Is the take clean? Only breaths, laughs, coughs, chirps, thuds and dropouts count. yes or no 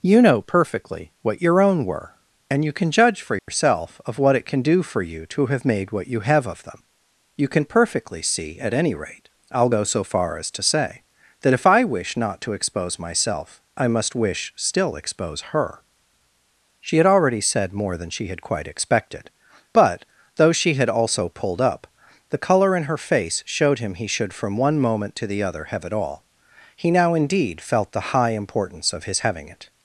no